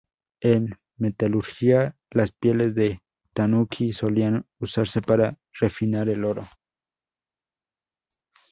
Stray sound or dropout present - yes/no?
no